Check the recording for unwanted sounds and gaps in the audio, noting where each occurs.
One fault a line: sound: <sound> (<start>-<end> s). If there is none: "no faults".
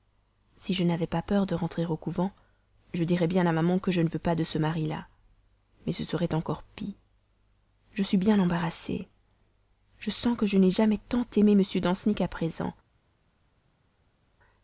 no faults